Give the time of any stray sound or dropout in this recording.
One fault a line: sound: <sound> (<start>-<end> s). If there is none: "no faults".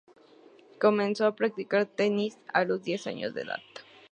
no faults